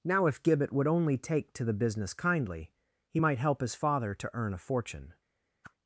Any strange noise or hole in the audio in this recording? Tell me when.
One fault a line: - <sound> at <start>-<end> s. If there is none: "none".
- whoosh at 5.6-5.7 s